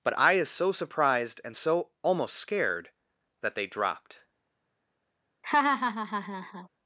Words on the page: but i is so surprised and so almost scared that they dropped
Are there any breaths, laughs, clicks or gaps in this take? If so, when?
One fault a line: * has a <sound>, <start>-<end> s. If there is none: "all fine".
* has a laugh, 5.4-6.7 s